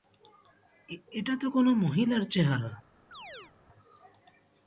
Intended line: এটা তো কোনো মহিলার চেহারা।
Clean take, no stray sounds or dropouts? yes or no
no